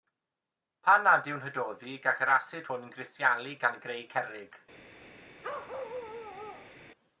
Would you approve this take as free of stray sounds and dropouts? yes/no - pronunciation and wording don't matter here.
no